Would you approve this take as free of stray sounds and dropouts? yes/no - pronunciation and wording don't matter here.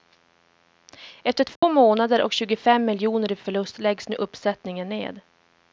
no